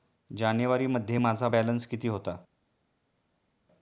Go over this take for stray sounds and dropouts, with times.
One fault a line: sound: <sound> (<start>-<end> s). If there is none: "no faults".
no faults